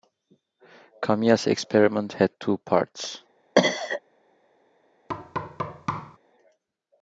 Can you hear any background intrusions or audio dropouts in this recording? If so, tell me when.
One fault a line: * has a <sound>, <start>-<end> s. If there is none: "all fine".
* has a cough, 3.6-4.0 s
* has a thud, 5.1-6.2 s